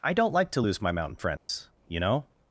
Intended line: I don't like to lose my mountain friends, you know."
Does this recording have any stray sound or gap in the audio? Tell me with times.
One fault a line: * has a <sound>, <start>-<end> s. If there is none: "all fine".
* has a dropout, 1.4-1.5 s